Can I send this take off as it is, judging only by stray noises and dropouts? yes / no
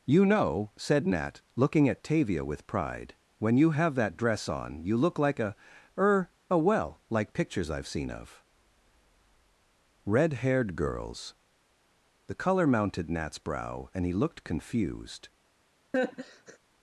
no